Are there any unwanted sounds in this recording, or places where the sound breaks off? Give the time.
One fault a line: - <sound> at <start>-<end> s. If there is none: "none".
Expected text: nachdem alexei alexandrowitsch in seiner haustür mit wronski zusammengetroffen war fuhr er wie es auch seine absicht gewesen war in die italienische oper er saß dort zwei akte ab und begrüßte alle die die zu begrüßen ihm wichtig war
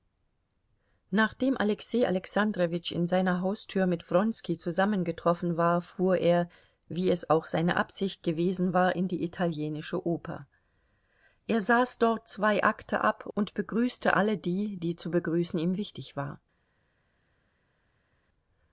none